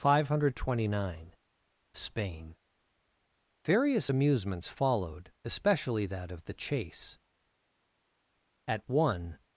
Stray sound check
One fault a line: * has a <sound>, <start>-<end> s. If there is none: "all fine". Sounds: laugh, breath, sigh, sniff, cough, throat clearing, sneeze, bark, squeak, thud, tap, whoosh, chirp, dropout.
all fine